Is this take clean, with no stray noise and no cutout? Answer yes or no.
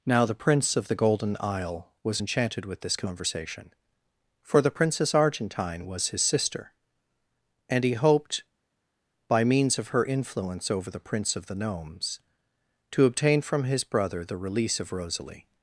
yes